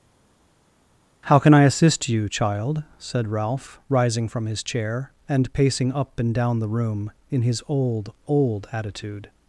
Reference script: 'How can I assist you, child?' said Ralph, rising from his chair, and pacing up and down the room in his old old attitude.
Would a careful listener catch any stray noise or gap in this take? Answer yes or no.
no